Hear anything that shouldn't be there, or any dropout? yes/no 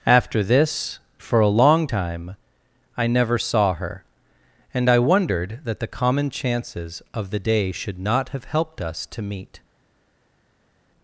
no